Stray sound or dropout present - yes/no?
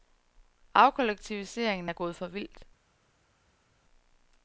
no